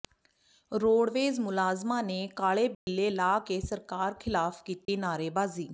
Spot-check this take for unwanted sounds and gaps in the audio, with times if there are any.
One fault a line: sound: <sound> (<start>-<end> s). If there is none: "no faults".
sound: dropout (2.7-2.9 s)
sound: dropout (4.8-4.9 s)